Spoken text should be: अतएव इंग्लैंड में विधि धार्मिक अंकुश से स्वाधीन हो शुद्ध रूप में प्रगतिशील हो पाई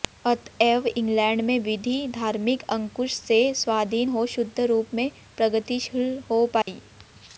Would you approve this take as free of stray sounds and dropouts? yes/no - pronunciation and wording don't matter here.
no